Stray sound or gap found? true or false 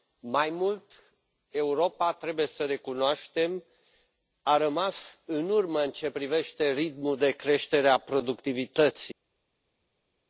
false